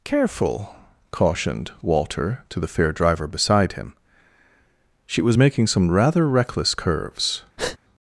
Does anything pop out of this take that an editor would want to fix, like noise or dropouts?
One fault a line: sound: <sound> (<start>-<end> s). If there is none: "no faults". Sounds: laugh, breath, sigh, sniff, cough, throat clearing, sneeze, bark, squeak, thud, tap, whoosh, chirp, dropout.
sound: breath (7.6-7.8 s)